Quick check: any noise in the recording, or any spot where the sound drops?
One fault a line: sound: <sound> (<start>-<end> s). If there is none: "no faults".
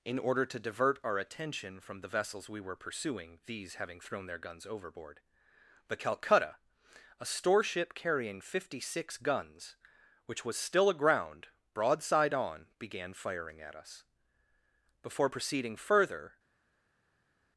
no faults